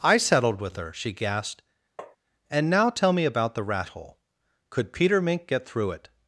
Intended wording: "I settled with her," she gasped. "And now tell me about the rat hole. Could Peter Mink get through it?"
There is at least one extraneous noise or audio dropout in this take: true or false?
true